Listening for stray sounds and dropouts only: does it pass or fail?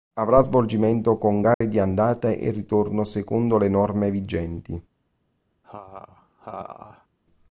fail